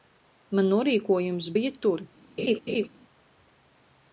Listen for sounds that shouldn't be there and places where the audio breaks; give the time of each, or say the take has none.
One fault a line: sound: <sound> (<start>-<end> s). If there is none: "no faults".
sound: laugh (2.4-2.9 s)